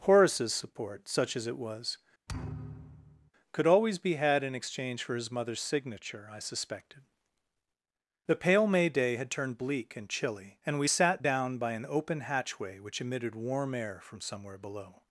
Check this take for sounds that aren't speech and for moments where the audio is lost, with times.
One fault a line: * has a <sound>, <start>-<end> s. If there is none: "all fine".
* has a thud, 2.3-3.3 s